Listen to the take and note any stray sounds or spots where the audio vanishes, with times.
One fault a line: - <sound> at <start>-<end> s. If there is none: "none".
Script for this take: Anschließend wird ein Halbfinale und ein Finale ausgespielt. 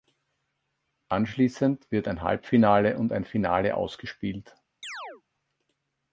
- chirp at 4.8-5.2 s